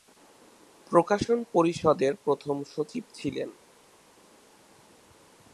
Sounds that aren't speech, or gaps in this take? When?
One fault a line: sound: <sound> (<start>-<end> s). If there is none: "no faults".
no faults